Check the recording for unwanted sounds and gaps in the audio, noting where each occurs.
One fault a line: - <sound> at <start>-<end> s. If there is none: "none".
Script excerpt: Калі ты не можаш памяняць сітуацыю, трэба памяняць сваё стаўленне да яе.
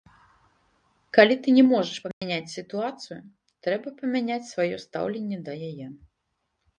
- dropout at 2.1-2.2 s